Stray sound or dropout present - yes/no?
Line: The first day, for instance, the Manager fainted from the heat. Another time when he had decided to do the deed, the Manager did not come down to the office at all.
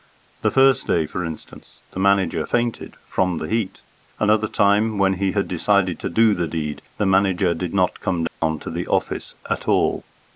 yes